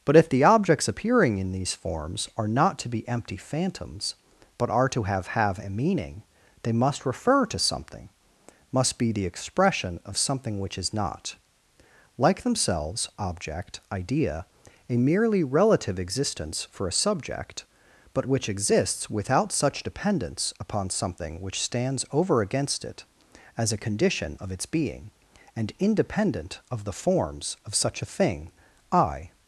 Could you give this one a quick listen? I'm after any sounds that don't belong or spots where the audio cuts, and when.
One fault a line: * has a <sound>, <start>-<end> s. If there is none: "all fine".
all fine